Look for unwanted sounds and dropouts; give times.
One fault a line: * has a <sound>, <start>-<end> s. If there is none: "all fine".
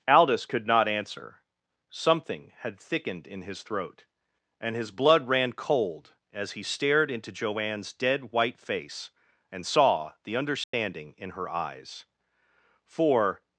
* has a dropout, 10.6-10.7 s